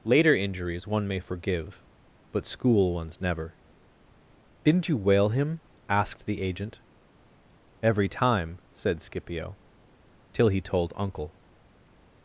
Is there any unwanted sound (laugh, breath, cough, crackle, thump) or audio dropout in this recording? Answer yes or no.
no